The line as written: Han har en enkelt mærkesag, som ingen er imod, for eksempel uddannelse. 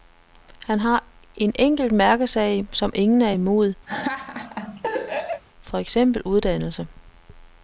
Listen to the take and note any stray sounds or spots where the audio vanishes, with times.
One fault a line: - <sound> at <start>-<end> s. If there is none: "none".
- laugh at 3.9-5.4 s